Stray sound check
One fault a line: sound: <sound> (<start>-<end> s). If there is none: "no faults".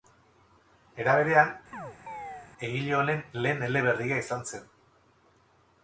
sound: chirp (1.7-2.5 s)